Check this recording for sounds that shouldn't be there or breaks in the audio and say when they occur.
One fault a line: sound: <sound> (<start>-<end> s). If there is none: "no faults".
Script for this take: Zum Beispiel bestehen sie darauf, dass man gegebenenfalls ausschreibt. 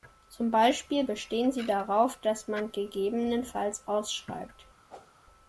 sound: whoosh (4.9-5.1 s)